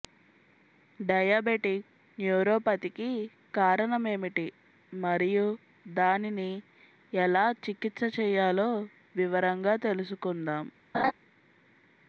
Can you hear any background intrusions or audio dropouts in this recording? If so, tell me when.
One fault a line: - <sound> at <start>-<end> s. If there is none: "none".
- laugh at 10.9-11.1 s